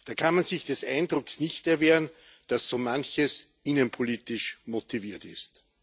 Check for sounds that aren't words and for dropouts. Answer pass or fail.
pass